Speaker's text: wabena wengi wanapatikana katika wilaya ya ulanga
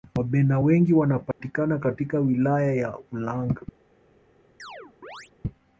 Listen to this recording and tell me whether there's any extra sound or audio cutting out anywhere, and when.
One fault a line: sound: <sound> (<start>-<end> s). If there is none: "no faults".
sound: dropout (1.3-1.4 s)
sound: chirp (4.6-5.3 s)